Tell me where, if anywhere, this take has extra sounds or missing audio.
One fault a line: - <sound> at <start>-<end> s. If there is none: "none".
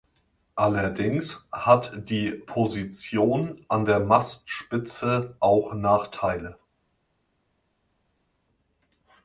none